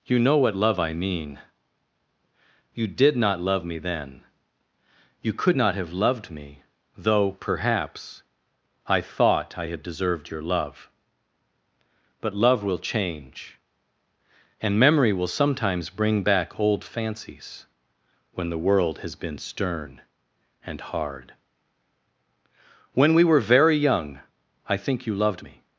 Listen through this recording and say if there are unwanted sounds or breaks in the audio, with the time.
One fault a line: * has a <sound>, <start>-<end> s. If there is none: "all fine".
all fine